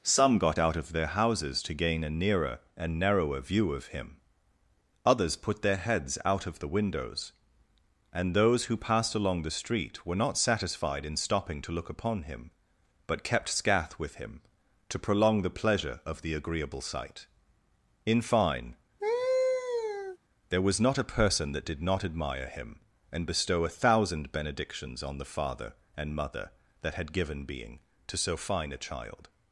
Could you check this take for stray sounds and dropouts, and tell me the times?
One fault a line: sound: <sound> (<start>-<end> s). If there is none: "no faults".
sound: laugh (19.0-20.2 s)